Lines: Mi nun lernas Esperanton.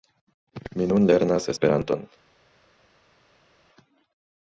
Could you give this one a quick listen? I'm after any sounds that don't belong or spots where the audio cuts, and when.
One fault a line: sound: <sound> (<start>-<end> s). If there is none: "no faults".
no faults